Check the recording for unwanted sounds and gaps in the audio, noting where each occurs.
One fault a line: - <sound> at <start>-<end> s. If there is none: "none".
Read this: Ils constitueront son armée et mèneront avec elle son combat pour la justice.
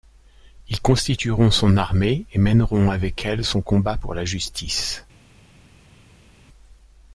none